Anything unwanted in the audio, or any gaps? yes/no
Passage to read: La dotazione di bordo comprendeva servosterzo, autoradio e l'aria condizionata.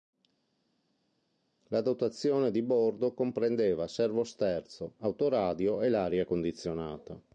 no